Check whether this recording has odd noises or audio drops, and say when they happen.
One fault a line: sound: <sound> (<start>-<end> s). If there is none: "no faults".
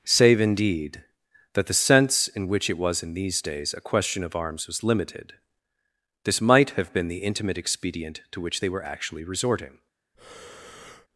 sound: breath (10.1-11.1 s)